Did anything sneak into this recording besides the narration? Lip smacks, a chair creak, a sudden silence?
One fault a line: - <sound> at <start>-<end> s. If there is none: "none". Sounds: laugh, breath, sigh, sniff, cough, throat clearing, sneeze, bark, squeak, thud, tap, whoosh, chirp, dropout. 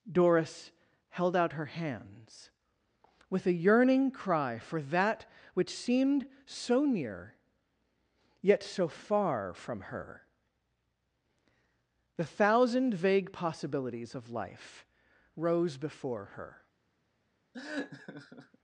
- laugh at 17.5-18.6 s